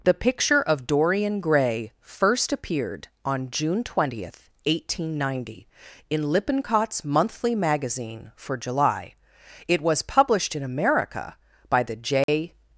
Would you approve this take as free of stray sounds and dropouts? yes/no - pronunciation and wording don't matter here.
no